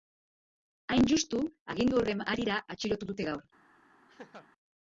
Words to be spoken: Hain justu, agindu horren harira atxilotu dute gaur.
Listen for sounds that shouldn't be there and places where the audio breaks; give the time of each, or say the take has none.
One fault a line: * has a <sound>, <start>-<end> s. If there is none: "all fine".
* has a laugh, 4.1-4.5 s